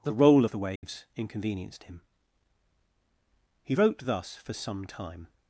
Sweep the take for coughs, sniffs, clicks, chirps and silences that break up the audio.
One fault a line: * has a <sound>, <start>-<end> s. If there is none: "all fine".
* has a dropout, 0.8-0.8 s